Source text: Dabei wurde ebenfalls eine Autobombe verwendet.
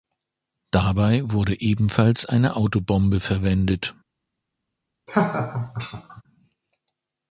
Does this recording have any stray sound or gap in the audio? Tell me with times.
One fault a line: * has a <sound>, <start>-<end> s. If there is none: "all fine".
* has a laugh, 5.1-6.2 s